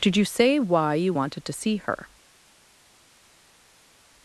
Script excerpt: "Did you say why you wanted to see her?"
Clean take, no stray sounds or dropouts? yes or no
yes